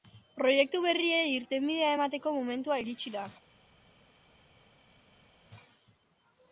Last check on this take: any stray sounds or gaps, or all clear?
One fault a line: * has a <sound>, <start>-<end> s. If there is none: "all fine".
all fine